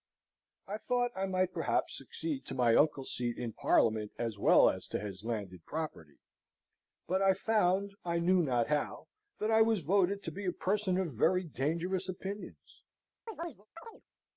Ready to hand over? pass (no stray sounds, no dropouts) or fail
fail